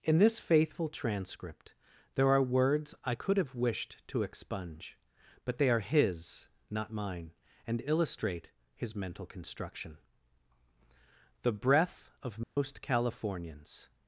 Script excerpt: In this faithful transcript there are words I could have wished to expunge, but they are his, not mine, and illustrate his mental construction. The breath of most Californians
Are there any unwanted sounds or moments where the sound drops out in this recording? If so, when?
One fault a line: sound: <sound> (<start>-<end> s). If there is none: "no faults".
sound: dropout (12.4-12.6 s)